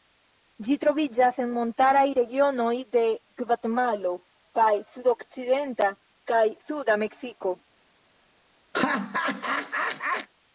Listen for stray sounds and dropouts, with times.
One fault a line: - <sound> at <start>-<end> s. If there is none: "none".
- laugh at 8.7-10.3 s